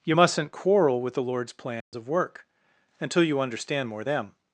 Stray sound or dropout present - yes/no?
yes